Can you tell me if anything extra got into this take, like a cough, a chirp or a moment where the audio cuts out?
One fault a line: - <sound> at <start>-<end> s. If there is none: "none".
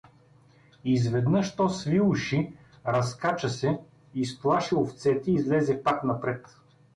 none